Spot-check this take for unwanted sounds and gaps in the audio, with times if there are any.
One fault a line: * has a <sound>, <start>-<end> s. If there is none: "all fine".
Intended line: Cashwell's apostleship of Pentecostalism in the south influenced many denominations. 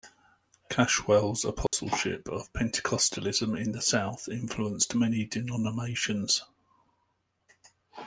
* has a dropout, 1.7-1.7 s